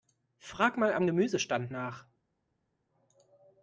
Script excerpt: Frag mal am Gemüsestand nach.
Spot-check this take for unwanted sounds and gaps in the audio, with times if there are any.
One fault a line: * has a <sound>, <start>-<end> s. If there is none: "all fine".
all fine